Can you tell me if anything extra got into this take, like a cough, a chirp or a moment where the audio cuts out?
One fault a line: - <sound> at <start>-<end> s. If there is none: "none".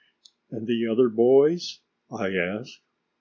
none